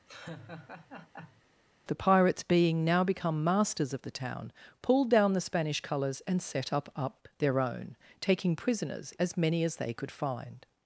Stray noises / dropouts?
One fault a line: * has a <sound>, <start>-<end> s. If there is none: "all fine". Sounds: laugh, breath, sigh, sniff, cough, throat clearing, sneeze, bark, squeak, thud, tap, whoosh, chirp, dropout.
* has a laugh, 0.1-1.4 s